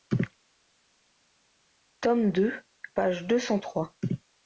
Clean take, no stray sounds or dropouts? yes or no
yes